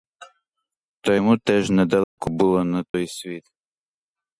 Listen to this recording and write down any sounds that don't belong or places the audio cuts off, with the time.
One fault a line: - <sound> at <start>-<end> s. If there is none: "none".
- dropout at 2.0-2.2 s
- dropout at 2.9-2.9 s